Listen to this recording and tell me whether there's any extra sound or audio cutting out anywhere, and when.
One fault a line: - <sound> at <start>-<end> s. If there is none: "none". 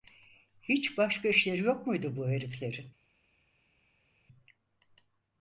none